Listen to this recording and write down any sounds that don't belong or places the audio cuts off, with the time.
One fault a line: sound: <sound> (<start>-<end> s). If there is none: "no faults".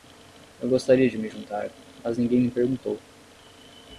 no faults